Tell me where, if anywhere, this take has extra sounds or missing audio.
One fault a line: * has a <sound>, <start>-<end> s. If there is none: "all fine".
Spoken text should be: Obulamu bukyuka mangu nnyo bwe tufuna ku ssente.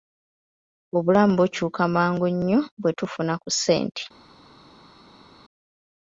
all fine